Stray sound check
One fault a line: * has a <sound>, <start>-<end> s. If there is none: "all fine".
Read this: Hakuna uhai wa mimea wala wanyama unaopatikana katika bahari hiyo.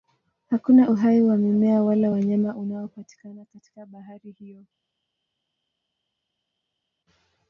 all fine